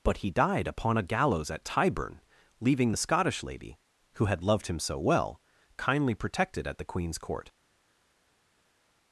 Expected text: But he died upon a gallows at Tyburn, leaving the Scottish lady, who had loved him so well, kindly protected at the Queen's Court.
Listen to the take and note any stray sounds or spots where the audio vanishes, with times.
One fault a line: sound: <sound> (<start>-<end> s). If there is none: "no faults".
no faults